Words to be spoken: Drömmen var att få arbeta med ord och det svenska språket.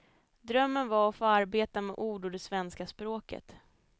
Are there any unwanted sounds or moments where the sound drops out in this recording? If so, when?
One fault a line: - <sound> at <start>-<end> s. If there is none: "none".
none